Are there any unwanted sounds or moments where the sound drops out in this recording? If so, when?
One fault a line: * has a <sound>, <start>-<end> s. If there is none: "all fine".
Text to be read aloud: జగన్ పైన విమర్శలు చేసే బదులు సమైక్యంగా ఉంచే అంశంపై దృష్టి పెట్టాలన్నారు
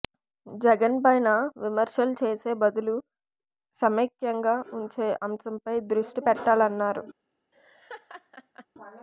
* has a laugh, 7.5-8.7 s